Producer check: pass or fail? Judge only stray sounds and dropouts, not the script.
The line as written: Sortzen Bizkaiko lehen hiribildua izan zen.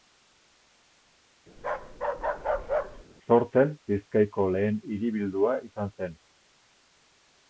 fail